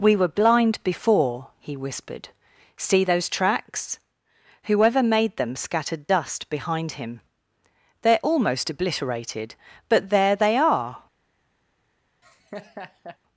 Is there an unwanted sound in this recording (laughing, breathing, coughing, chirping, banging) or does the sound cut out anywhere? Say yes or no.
yes